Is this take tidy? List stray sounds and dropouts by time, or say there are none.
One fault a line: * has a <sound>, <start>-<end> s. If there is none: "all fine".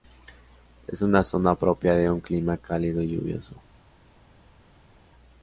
all fine